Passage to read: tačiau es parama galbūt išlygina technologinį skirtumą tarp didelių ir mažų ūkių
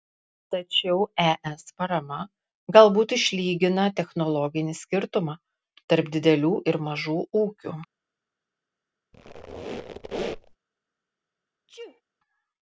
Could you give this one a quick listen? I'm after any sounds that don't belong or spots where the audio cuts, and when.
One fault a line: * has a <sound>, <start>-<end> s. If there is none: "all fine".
* has a squeak, 9.1-10.6 s
* has a sneeze, 11.7-12.0 s